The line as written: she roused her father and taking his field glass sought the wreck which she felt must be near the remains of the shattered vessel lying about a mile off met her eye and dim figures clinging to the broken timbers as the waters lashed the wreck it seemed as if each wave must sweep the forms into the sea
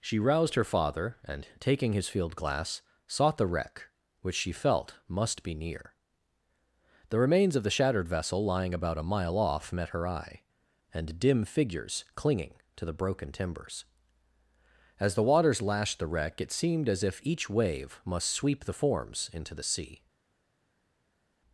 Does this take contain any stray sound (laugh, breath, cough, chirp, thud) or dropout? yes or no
no